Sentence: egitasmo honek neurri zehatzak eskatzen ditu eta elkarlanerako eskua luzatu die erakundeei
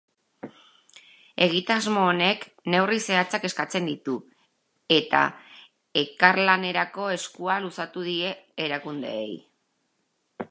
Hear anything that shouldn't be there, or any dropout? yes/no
no